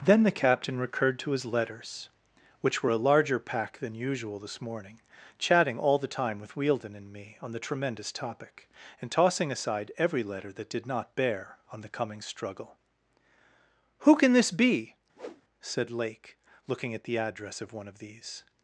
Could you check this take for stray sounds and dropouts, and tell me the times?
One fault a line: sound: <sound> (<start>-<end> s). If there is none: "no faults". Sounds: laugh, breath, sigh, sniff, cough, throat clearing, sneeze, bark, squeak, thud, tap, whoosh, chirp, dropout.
sound: whoosh (15.2-15.4 s)